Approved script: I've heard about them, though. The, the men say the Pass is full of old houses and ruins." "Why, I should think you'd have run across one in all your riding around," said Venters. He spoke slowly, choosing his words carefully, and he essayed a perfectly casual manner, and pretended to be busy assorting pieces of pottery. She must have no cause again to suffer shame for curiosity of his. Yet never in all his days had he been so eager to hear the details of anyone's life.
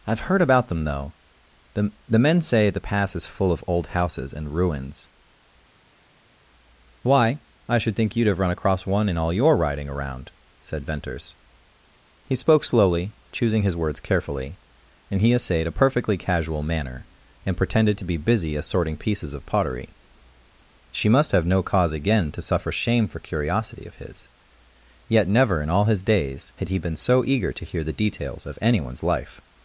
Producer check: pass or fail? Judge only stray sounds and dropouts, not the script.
pass